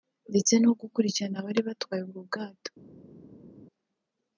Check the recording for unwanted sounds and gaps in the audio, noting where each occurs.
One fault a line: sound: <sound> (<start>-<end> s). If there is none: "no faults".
no faults